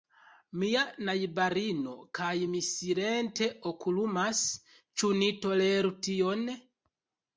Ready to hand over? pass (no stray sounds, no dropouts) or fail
pass